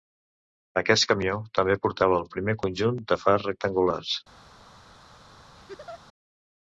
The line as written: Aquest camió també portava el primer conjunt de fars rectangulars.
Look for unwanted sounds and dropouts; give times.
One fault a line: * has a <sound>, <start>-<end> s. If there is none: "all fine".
* has a laugh, 5.6-6.0 s